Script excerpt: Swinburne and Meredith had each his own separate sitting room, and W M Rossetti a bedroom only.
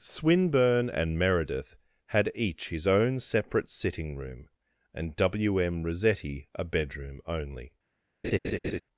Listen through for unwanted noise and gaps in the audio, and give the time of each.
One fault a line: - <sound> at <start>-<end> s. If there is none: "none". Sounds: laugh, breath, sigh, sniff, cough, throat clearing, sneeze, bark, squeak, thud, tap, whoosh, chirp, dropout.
- laugh at 8.2-8.8 s